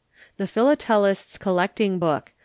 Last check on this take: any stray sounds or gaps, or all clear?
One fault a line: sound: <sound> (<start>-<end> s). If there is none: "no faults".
no faults